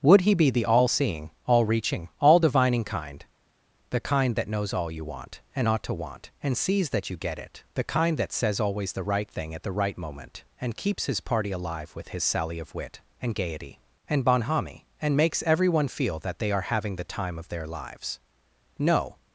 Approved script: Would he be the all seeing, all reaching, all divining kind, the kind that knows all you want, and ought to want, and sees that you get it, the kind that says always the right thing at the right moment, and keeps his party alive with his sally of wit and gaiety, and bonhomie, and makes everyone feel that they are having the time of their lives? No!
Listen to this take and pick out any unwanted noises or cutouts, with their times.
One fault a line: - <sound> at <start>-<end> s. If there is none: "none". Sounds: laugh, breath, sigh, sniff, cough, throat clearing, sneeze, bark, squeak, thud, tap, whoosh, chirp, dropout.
none